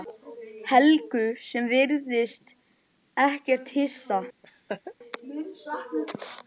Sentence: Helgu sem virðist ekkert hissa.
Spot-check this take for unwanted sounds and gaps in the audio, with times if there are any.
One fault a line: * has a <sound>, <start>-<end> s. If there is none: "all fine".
* has a laugh, 4.4-4.9 s